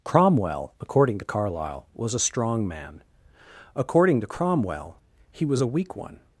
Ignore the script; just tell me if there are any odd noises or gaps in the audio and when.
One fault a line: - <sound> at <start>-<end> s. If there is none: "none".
none